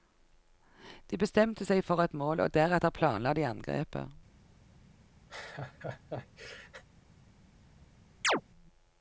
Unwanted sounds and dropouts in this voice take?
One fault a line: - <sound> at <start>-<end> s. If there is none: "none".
- laugh at 5.3-6.8 s
- chirp at 8.2-8.4 s